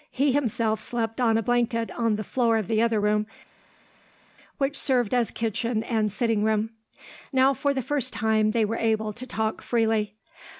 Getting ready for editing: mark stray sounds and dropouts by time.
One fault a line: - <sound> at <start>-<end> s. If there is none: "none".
none